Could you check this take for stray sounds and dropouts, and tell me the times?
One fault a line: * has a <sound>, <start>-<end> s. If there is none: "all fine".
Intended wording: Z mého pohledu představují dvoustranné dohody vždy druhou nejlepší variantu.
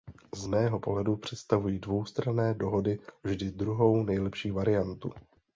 all fine